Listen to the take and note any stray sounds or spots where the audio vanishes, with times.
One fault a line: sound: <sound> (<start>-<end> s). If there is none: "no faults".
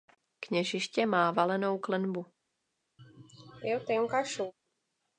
sound: sneeze (3.0-4.5 s)